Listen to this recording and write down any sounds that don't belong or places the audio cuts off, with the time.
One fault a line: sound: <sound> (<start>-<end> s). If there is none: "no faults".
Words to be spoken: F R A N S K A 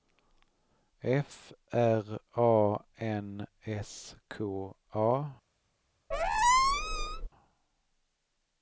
sound: squeak (6.1-7.3 s)